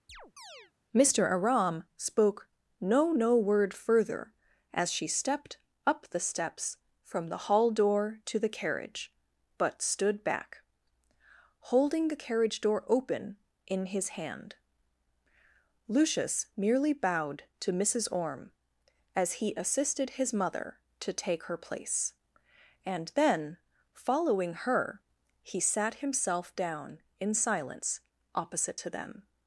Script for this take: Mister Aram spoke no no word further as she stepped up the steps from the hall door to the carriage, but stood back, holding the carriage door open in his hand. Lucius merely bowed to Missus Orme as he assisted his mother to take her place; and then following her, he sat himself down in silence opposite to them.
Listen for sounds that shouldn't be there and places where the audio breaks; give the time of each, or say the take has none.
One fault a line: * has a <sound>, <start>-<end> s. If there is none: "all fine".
* has a chirp, 0.1-0.7 s